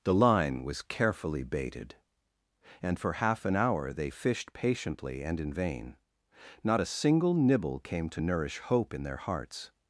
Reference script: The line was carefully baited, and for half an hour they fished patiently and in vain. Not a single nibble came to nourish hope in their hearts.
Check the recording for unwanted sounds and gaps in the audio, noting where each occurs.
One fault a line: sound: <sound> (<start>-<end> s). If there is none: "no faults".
no faults